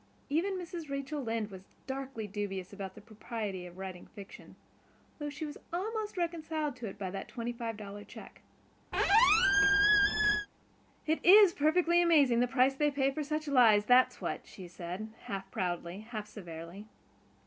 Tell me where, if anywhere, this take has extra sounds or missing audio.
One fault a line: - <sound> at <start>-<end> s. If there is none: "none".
- squeak at 8.9-10.5 s